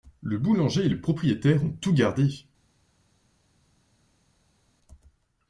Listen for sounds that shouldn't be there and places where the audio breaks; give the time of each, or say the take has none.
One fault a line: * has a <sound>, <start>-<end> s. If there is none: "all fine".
all fine